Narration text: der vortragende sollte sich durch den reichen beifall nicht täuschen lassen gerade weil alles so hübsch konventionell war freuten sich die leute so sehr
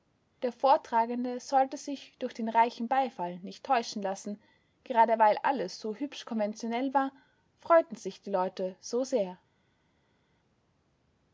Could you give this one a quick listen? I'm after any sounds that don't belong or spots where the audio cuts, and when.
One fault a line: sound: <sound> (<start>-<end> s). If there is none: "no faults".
no faults